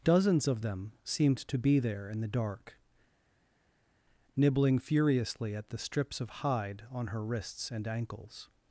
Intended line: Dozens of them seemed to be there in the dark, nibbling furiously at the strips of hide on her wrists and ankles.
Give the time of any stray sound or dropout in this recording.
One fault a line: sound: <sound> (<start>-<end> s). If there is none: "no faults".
no faults